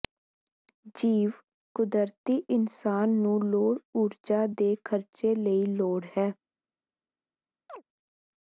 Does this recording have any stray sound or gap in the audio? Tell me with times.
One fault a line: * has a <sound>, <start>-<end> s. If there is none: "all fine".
* has a chirp, 7.7-7.8 s